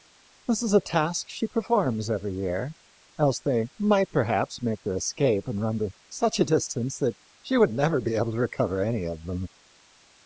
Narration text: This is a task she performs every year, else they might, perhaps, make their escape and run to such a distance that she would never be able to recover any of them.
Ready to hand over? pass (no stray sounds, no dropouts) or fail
pass